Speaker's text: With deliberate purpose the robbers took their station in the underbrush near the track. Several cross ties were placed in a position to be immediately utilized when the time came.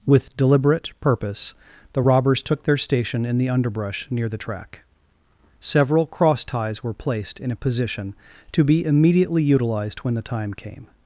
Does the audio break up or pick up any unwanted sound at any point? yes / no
no